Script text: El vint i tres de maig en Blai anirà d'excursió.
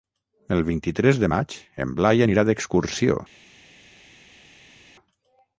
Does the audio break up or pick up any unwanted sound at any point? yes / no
no